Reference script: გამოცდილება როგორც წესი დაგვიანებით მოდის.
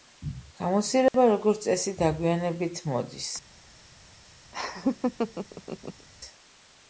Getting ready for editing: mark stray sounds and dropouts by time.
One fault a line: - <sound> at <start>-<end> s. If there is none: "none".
- dropout at 1.1-1.1 s
- laugh at 4.5-6.1 s